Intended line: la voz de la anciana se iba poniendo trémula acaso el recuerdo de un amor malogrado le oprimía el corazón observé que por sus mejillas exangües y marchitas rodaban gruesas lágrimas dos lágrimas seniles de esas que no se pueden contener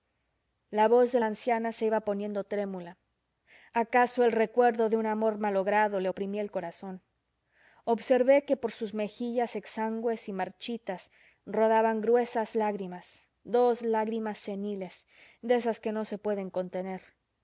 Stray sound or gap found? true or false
false